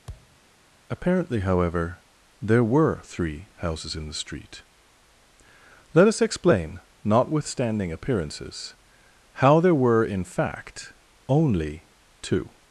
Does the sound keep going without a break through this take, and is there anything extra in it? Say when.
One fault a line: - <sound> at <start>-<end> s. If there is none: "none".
- thud at 0.1-0.4 s